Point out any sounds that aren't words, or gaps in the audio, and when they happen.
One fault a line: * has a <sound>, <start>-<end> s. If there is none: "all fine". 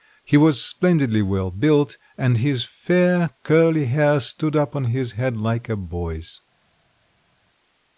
all fine